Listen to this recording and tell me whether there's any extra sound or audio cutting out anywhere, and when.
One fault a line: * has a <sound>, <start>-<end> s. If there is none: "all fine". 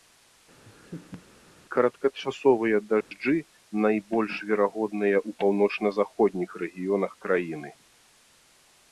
* has a laugh, 0.6-1.2 s
* has a dropout, 3.0-3.1 s